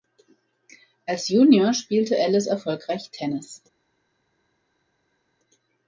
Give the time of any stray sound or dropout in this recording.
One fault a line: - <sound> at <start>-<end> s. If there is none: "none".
none